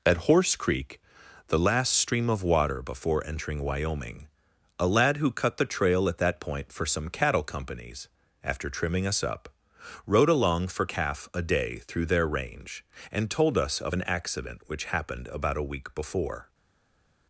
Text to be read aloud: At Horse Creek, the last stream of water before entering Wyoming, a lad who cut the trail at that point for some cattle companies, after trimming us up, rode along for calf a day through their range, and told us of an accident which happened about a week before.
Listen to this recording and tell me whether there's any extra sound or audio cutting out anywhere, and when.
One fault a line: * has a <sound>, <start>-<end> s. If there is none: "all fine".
all fine